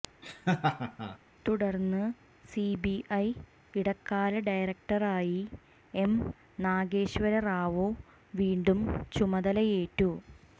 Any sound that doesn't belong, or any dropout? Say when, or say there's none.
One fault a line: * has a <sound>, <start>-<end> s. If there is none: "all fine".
* has a laugh, 0.2-1.2 s